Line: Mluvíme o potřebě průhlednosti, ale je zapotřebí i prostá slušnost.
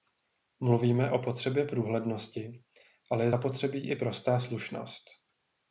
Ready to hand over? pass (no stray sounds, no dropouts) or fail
pass